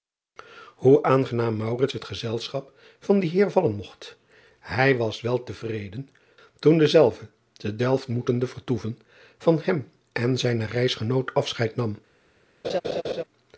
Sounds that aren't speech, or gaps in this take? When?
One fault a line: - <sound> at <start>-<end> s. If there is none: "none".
- laugh at 12.6-13.2 s